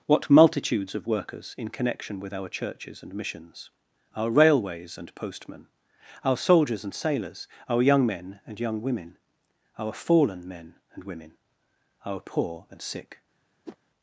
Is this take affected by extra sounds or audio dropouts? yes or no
yes